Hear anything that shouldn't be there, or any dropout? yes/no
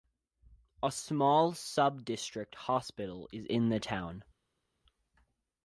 no